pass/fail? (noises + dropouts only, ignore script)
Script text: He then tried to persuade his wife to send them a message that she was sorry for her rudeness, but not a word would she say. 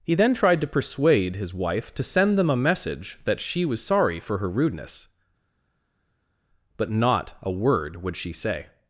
pass